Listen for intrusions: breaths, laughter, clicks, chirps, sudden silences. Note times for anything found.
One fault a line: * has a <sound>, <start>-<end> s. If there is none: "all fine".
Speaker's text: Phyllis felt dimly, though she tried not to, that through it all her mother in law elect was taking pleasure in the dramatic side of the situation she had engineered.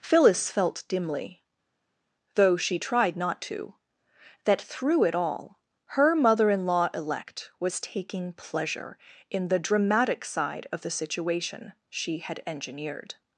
all fine